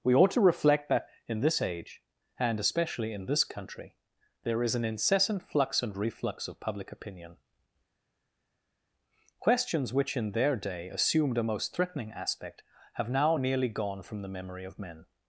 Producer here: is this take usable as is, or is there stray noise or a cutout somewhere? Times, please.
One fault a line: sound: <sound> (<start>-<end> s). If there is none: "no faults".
no faults